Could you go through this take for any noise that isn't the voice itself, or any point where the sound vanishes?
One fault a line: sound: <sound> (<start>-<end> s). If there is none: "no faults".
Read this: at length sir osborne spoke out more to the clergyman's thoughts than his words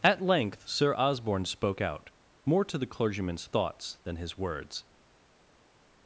no faults